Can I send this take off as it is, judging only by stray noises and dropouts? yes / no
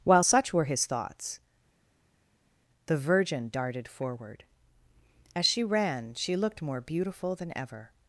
yes